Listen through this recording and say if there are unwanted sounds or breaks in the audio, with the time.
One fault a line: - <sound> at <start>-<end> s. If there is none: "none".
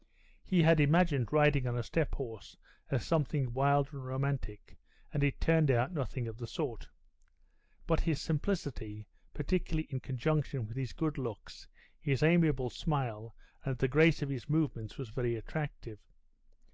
none